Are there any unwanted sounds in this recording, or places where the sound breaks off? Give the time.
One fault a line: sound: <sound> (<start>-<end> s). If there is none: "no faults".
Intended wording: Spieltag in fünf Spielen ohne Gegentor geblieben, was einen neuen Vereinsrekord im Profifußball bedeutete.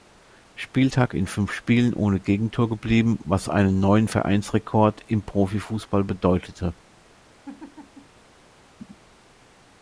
sound: laugh (7.4-8.2 s)
sound: throat clearing (8.8-9.0 s)